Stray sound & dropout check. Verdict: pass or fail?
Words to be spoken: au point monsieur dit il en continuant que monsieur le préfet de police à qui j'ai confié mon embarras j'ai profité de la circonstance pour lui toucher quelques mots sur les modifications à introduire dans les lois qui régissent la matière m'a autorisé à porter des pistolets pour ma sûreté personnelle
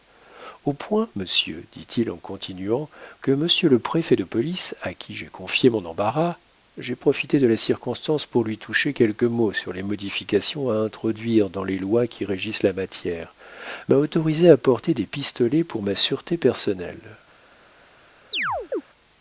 fail